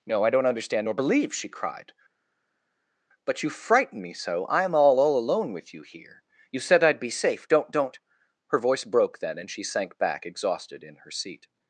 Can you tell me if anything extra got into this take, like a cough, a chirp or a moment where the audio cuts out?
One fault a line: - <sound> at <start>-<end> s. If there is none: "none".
none